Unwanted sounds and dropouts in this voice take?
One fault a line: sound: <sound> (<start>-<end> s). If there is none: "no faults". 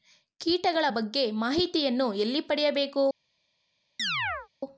sound: chirp (4.0-4.5 s)